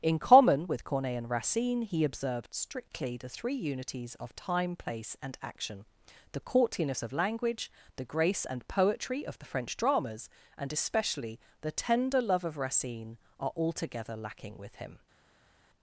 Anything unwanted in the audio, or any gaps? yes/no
no